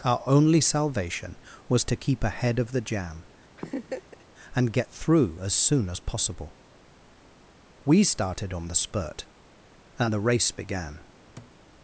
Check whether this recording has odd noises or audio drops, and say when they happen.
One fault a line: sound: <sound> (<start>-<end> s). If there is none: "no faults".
sound: laugh (3.6-4.2 s)
sound: thud (11.4-11.5 s)